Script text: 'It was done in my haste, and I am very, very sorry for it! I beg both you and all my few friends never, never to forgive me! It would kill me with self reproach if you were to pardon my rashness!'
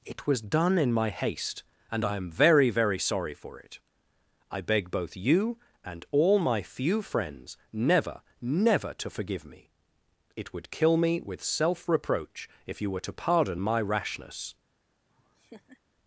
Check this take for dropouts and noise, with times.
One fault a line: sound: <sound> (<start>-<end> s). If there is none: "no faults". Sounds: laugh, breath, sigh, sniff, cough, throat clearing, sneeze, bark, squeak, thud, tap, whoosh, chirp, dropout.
sound: laugh (15.1-15.8 s)